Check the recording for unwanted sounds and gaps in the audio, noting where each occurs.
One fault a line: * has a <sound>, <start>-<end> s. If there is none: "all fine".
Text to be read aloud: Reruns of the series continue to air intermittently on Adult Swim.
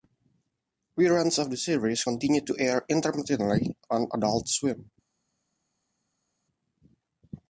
all fine